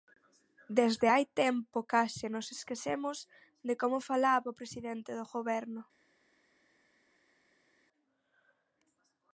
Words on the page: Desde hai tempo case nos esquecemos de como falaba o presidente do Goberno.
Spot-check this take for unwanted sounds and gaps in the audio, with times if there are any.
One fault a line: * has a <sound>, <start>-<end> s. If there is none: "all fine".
all fine